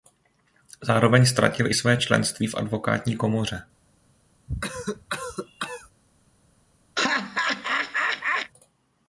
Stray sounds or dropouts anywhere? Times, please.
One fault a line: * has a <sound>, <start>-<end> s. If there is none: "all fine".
* has a cough, 4.5-5.9 s
* has a laugh, 7.0-8.5 s